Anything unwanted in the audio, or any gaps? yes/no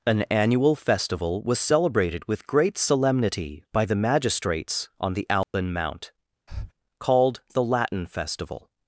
yes